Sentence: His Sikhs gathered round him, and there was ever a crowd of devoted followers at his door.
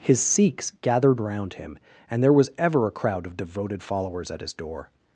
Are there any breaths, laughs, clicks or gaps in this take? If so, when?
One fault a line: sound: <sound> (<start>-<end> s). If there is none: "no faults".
no faults